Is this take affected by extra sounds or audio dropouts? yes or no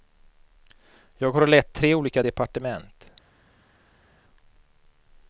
no